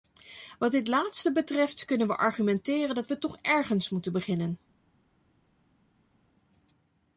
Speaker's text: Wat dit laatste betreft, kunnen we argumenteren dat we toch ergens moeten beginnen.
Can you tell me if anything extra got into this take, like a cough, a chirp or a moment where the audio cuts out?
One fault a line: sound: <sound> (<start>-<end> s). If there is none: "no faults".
no faults